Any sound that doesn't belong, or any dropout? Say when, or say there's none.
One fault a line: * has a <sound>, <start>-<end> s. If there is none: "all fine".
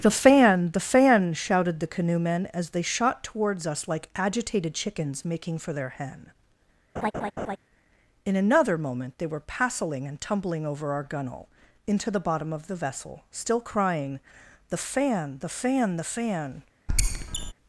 * has a laugh, 7.0-7.6 s
* has a squeak, 16.9-17.5 s